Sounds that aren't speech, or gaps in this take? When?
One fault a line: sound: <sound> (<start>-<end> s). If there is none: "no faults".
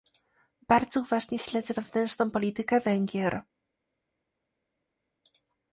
no faults